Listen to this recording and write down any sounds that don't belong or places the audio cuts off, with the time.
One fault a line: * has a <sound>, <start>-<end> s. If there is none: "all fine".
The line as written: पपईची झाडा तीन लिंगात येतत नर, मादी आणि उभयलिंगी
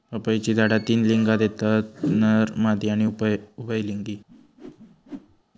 * has a whoosh, 4.3-5.4 s